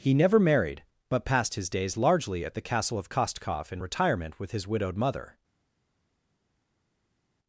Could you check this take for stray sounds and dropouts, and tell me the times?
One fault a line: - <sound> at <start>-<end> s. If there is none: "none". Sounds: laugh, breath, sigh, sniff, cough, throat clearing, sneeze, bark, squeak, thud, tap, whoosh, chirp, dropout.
none